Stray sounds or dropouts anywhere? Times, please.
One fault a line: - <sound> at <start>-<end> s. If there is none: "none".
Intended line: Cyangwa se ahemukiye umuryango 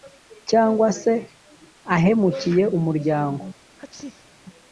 - sneeze at 3.8-4.4 s